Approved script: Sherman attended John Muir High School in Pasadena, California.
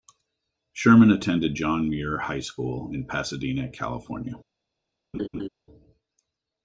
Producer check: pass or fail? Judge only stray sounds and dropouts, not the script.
fail